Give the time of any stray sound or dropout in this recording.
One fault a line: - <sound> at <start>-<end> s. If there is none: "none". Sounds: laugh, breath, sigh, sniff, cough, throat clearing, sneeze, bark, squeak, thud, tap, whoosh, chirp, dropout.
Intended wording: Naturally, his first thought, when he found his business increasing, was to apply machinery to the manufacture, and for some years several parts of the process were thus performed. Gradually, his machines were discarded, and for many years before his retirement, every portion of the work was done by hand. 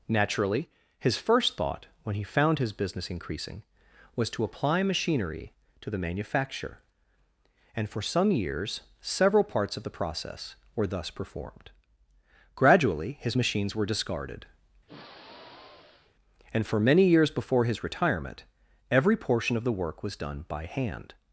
- sigh at 14.9-16.2 s